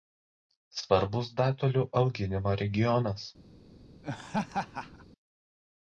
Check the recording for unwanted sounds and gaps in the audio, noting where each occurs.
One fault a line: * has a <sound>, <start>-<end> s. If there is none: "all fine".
* has a laugh, 4.0-5.1 s